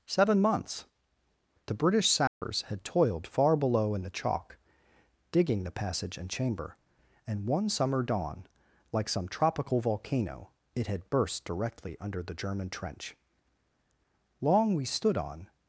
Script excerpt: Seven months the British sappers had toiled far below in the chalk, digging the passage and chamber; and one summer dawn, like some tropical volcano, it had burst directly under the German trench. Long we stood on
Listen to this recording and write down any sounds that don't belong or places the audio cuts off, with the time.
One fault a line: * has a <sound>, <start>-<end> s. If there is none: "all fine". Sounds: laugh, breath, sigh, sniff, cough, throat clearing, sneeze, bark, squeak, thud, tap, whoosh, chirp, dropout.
* has a dropout, 2.3-2.4 s